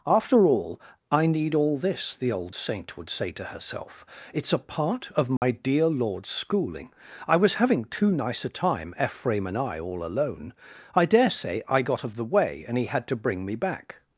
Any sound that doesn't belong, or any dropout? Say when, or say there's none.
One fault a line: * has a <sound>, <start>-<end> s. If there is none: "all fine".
* has a dropout, 5.4-5.4 s